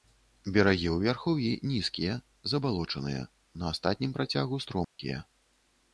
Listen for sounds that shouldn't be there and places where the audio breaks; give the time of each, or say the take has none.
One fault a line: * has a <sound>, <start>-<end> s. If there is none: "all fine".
* has a dropout, 4.8-5.0 s